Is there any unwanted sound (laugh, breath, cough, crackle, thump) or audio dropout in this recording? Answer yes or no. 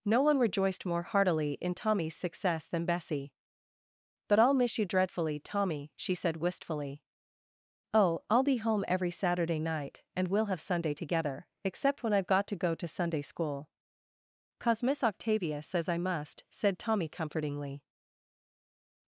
no